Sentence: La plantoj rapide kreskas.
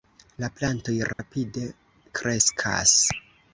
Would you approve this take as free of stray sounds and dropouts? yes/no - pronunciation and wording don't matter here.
no